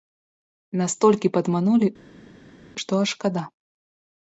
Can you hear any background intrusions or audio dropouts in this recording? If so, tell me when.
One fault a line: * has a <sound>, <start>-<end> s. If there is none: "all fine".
all fine